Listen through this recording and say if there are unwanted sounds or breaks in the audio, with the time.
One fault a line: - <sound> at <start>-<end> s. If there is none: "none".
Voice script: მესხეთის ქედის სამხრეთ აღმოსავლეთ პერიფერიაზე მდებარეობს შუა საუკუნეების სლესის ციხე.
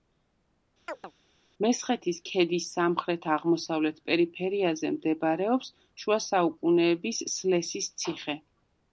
- chirp at 0.9-1.1 s